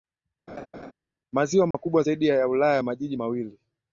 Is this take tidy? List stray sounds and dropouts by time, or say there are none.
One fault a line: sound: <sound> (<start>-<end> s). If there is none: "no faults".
sound: laugh (0.5-0.9 s)
sound: dropout (1.7-1.7 s)